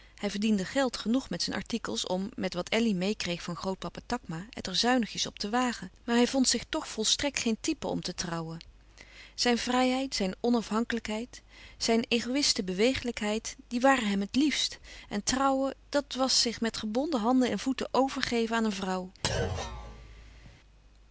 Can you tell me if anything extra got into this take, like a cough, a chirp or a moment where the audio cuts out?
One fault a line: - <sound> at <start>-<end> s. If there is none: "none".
- thud at 19.2-20.6 s